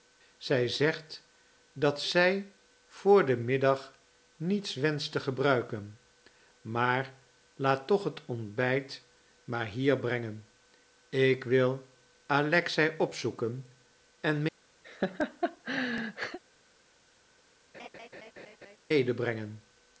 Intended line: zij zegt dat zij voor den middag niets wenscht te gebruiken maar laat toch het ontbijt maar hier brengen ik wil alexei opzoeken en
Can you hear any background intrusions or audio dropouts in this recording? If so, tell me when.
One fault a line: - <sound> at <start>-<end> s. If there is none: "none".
- laugh at 14.8-16.4 s
- laugh at 17.7-18.8 s